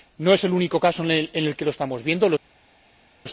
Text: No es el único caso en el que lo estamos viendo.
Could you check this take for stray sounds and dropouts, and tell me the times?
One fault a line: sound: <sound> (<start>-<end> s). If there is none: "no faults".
no faults